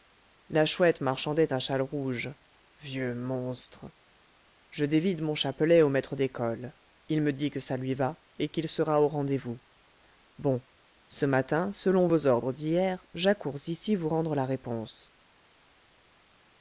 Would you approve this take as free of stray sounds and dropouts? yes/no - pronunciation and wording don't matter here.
yes